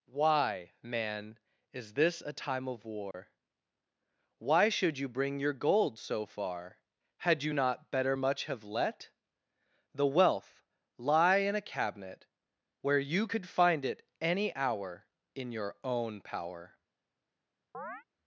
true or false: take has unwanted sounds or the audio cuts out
true